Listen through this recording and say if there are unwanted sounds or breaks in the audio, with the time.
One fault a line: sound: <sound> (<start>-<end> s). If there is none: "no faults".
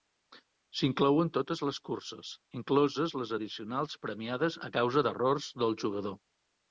no faults